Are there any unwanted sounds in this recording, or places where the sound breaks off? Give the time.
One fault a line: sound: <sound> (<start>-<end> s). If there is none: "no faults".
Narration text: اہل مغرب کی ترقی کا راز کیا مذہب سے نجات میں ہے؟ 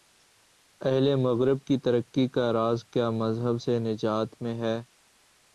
no faults